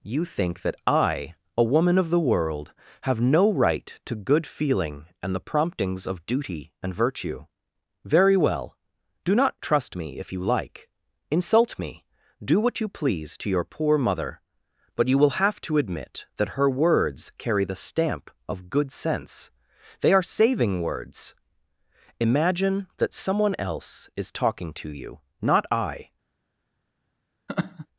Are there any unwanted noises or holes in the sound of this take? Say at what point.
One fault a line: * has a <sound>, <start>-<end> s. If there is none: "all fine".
* has a laugh, 27.5-27.9 s